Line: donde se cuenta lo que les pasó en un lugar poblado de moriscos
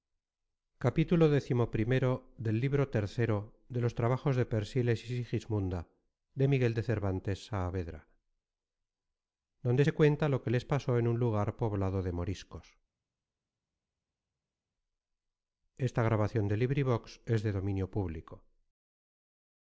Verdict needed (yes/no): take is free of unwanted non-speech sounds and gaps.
yes